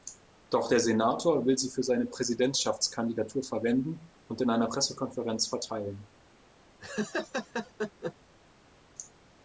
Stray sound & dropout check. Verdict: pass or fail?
fail